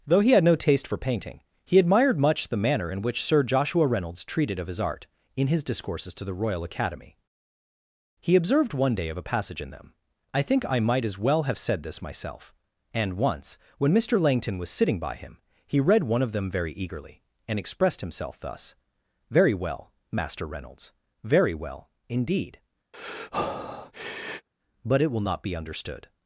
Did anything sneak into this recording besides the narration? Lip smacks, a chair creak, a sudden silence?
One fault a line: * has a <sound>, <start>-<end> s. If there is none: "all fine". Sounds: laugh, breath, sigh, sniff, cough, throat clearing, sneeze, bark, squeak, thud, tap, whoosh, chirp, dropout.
* has a breath, 22.9-24.5 s